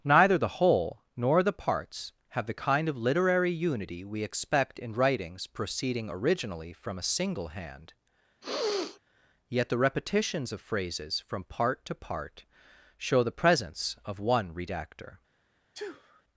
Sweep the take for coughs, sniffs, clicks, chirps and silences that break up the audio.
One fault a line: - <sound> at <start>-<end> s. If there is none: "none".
- sneeze at 8.4-9.0 s
- sneeze at 15.7-16.2 s